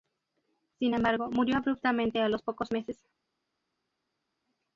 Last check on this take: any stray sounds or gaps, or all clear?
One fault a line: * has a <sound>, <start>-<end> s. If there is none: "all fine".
all fine